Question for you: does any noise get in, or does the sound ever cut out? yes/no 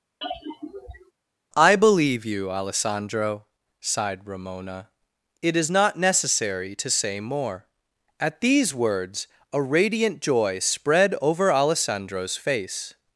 yes